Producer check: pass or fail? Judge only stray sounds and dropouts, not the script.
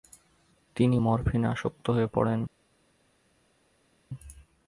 pass